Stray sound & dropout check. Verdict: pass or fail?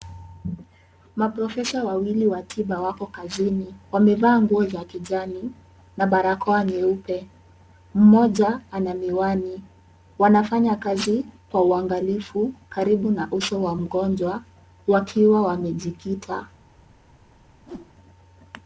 fail